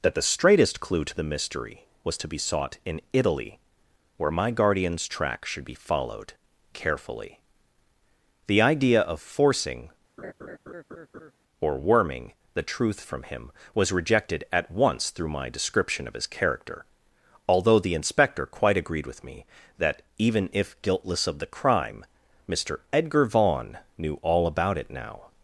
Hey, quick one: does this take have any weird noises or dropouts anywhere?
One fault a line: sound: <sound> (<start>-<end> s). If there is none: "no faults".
sound: laugh (10.2-11.3 s)